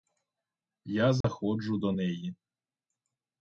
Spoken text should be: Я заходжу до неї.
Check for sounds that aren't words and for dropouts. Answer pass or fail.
fail